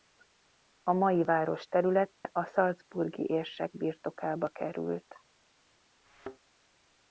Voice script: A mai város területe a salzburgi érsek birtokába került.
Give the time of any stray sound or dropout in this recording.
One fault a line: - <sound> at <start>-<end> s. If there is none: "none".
- dropout at 2.1-2.2 s
- thud at 6.1-6.4 s